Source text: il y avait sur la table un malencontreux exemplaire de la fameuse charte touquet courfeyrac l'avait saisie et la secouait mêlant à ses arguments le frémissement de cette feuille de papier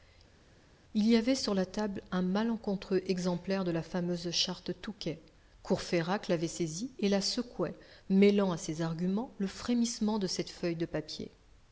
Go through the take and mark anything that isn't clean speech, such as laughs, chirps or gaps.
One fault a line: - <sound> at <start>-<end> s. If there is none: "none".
none